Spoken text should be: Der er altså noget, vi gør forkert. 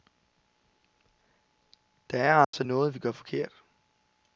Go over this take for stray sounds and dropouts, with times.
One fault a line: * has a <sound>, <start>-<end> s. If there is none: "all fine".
* has a dropout, 2.4-2.5 s